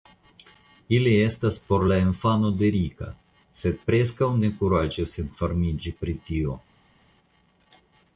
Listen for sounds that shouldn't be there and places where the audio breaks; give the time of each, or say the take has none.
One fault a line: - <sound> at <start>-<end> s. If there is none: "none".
none